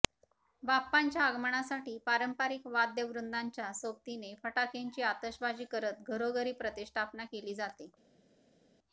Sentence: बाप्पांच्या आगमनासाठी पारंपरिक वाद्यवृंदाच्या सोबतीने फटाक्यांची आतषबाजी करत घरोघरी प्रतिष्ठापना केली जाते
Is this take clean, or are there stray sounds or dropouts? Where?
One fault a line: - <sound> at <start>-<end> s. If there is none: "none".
none